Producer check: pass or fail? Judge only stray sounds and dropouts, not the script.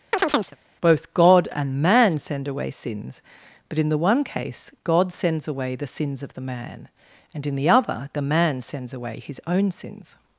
fail